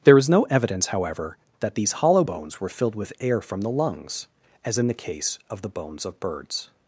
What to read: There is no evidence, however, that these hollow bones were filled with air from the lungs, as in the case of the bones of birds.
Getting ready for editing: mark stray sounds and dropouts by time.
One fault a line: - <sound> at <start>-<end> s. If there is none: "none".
none